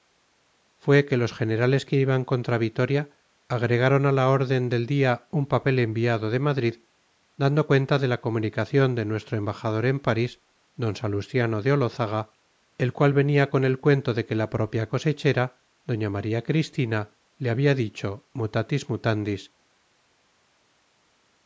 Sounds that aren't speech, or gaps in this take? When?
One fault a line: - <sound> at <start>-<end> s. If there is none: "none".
none